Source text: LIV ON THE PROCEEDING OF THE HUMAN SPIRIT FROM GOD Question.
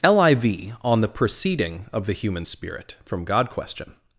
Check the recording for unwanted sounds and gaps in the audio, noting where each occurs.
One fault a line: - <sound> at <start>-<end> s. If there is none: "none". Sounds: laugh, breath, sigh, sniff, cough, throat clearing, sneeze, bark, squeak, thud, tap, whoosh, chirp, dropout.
none